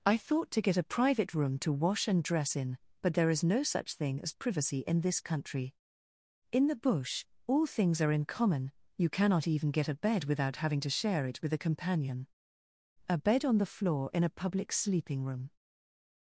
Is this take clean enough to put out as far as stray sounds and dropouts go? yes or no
yes